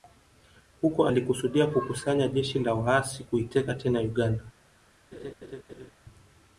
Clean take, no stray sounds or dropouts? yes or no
no